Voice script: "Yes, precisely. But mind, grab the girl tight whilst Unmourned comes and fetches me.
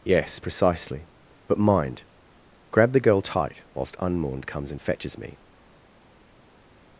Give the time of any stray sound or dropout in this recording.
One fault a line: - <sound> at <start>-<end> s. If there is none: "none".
none